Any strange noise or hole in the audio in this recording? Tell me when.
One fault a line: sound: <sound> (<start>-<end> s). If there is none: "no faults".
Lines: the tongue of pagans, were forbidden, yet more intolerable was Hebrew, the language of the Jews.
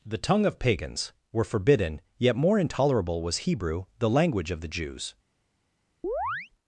sound: chirp (6.0-6.5 s)